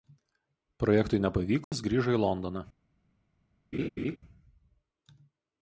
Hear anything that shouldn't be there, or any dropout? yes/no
yes